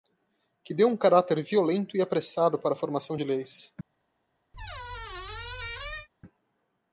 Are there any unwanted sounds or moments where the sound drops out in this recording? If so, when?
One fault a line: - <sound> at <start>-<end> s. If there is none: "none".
- squeak at 4.5-6.1 s